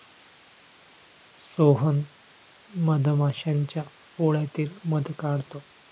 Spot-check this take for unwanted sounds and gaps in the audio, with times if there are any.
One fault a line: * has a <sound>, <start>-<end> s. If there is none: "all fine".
all fine